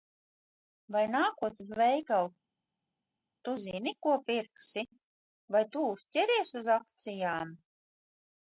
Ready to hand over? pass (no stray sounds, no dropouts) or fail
pass